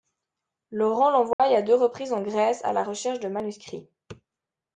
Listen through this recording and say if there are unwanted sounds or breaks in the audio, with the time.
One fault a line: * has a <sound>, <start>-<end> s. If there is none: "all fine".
* has a dropout, 1.3-1.4 s